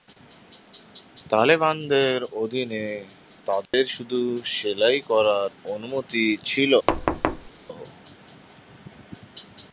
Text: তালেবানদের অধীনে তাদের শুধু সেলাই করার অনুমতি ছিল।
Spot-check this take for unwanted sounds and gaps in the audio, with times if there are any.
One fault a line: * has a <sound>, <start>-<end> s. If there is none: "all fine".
* has a dropout, 3.7-3.7 s
* has a thud, 6.9-7.5 s